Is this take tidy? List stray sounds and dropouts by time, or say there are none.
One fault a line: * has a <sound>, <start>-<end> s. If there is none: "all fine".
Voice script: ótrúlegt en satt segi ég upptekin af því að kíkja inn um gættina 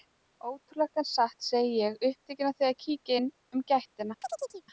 * has a chirp, 4.2-4.6 s